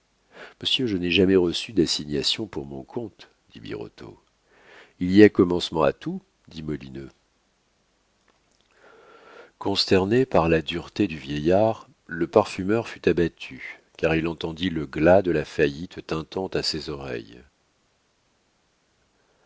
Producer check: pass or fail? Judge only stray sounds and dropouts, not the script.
pass